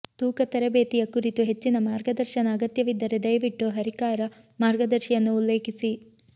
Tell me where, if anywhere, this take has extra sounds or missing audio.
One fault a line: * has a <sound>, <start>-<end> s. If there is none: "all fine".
all fine